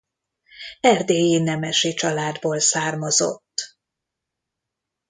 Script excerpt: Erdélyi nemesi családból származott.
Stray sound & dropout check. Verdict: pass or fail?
pass